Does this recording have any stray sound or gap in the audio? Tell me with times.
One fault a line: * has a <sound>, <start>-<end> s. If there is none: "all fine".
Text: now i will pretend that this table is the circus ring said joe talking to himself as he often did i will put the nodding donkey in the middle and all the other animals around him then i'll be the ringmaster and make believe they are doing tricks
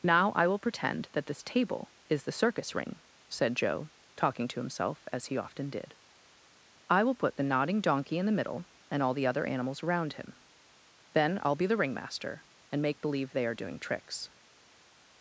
all fine